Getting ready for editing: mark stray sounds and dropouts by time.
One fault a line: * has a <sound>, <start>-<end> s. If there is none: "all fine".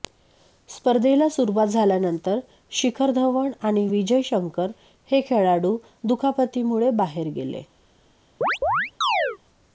* has a chirp, 8.4-9.4 s